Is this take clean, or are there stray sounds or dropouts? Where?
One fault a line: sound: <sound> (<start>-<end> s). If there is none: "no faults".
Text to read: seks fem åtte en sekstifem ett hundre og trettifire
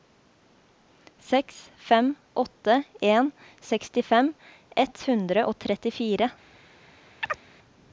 sound: chirp (7.2-7.4 s)